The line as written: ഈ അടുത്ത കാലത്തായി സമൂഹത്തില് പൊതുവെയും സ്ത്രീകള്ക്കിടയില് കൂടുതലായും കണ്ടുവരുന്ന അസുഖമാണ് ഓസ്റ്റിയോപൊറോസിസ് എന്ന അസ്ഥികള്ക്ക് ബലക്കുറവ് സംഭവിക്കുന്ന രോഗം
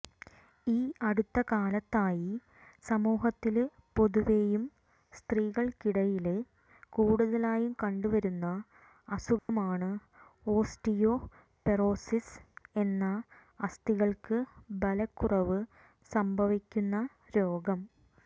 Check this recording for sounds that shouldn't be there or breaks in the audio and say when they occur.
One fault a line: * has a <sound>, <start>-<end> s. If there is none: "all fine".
* has a dropout, 9.4-9.5 s